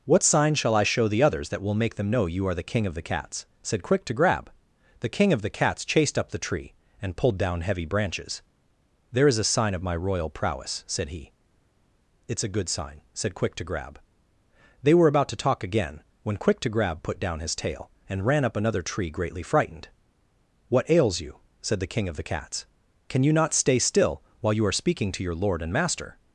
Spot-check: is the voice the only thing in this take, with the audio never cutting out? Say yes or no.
yes